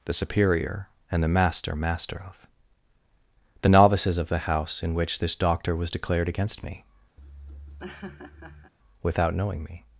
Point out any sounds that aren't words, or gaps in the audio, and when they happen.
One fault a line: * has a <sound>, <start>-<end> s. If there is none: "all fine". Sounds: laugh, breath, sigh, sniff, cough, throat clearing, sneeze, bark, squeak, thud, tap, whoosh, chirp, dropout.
* has a laugh, 7.2-8.7 s